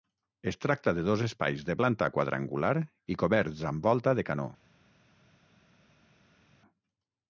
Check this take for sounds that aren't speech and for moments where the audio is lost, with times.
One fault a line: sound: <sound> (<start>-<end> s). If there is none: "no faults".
no faults